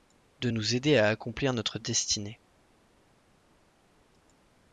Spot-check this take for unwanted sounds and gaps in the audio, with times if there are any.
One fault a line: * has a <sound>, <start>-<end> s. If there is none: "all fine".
all fine